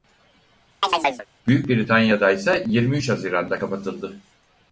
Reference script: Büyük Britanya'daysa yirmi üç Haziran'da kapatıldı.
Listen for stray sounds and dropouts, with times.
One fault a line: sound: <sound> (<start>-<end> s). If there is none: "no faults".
sound: chirp (0.8-1.3 s)